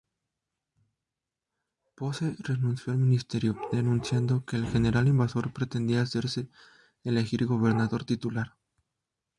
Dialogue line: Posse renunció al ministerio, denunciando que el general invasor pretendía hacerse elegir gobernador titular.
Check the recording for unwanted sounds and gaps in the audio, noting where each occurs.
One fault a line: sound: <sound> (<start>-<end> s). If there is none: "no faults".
no faults